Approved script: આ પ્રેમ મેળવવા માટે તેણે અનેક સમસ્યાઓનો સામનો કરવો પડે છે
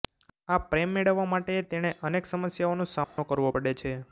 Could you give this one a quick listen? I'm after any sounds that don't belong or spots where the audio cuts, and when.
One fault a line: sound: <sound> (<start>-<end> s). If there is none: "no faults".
sound: dropout (3.0-3.2 s)